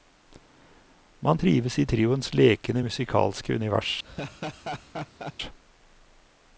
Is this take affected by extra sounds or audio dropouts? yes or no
yes